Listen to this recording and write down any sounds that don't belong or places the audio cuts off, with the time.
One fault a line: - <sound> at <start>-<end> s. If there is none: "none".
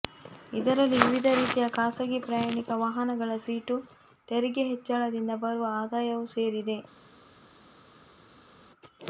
none